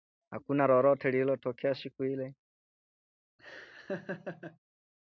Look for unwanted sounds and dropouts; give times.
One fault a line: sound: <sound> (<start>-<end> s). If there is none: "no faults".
sound: laugh (3.4-4.6 s)